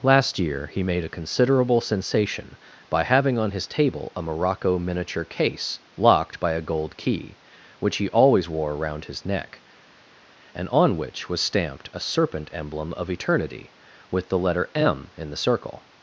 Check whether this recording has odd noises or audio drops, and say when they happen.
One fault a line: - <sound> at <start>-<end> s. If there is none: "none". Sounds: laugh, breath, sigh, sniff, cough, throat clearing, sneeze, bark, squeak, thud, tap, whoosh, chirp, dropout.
none